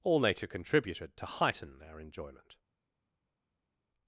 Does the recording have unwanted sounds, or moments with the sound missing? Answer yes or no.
no